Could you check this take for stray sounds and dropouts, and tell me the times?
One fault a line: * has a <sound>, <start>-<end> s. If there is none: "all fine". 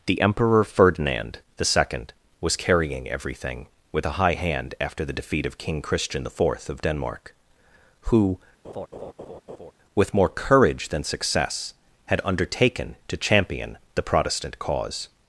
* has a laugh, 8.6-9.7 s